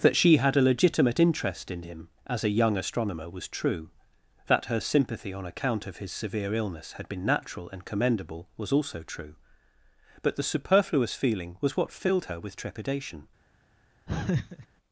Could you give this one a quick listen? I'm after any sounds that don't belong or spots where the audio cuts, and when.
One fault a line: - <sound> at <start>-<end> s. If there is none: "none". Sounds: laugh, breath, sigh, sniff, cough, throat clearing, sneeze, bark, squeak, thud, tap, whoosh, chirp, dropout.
- laugh at 14.1-14.7 s